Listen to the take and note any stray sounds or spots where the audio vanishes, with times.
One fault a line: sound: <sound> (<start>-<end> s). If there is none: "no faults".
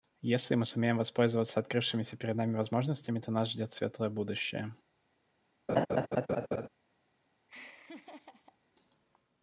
sound: laugh (5.7-6.7 s)
sound: laugh (7.5-8.6 s)